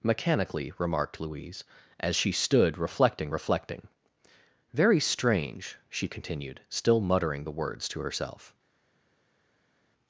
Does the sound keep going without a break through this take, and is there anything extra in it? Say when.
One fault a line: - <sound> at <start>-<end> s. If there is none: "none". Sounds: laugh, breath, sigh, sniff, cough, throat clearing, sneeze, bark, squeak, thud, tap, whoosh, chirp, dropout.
none